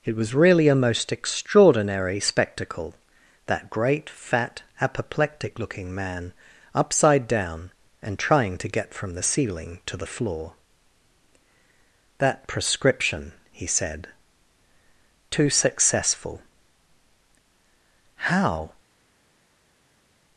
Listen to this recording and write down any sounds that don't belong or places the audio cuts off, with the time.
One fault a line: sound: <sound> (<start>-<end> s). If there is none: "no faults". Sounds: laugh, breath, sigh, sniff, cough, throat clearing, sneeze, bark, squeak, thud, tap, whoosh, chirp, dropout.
no faults